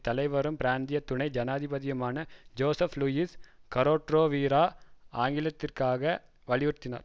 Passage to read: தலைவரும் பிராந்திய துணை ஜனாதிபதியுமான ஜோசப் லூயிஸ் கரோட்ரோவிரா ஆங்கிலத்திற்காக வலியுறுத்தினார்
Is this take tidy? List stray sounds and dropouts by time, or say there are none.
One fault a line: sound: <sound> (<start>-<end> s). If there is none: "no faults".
no faults